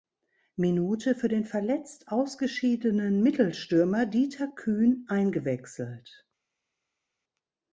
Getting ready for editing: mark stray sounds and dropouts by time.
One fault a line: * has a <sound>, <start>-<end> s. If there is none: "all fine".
all fine